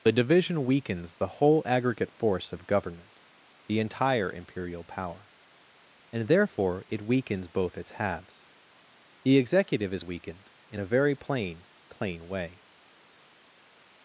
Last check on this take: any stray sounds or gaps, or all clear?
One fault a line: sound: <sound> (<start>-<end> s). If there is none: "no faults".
no faults